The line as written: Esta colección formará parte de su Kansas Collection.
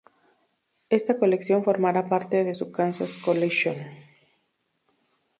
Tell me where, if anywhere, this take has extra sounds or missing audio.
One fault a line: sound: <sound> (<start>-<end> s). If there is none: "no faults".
no faults